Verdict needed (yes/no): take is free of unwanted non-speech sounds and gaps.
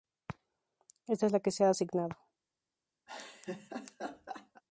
no